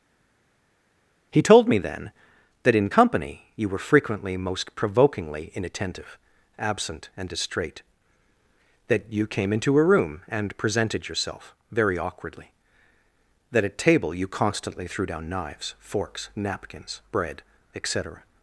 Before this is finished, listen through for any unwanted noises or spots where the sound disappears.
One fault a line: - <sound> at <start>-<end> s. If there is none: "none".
none